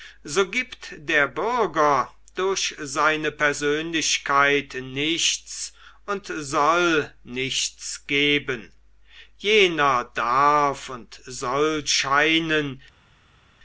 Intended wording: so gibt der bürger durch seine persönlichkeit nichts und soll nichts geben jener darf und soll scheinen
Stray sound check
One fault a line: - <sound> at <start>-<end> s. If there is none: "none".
none